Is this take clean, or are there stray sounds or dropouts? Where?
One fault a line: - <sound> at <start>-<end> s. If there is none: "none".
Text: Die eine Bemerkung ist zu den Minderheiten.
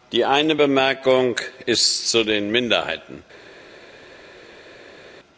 none